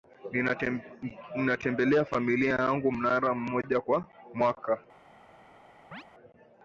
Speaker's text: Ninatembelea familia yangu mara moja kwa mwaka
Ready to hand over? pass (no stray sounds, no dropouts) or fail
fail